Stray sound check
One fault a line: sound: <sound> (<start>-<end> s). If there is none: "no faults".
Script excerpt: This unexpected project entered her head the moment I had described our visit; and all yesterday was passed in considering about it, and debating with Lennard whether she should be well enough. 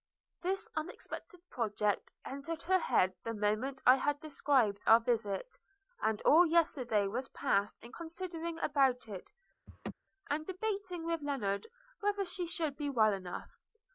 sound: laugh (9.7-9.9 s)